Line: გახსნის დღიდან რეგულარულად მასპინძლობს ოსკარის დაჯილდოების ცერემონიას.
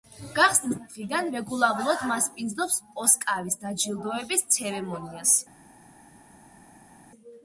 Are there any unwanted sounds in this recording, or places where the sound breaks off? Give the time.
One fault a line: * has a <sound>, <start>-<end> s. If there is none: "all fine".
all fine